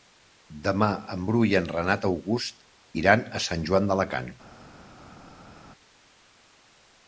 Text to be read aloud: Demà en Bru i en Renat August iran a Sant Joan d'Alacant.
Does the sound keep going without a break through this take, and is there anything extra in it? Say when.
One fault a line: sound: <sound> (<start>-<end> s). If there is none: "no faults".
no faults